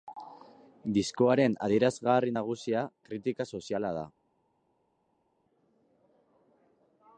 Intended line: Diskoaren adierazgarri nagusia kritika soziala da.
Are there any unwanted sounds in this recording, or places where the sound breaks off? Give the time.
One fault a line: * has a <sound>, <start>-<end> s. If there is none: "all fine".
all fine